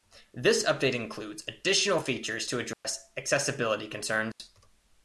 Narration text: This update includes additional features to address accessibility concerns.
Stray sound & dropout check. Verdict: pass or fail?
fail